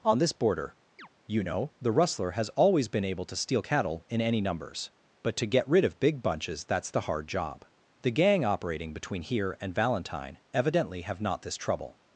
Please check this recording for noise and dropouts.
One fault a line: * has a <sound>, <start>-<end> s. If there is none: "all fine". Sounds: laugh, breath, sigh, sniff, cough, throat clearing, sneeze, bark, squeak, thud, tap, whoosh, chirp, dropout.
* has a chirp, 1.0-1.1 s